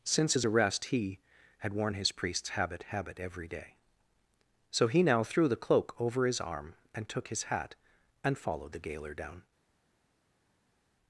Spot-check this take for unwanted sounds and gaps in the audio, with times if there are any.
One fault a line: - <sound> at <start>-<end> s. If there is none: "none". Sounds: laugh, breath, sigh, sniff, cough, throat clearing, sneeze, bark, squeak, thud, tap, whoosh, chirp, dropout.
none